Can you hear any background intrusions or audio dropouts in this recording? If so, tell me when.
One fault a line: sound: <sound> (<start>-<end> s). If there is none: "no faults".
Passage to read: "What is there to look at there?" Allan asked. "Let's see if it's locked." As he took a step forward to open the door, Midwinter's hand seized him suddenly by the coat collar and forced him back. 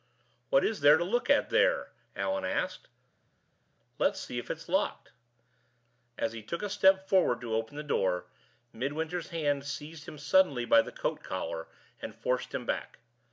no faults